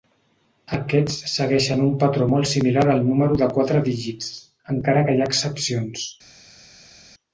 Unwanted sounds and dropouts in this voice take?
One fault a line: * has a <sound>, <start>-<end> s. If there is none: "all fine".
all fine